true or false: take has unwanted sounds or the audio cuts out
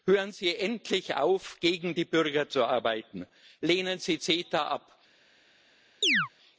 true